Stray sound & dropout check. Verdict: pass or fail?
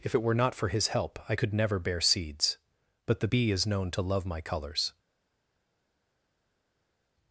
pass